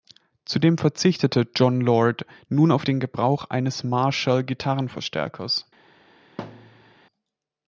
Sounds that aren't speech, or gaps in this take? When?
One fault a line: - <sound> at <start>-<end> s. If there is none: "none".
- thud at 6.4-6.9 s